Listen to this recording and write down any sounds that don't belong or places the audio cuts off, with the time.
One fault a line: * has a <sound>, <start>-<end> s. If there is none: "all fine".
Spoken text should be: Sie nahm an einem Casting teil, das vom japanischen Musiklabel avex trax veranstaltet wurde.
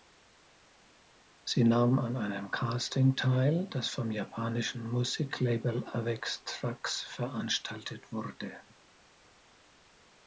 all fine